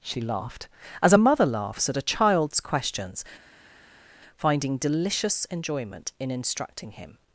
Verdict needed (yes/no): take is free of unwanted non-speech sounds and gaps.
yes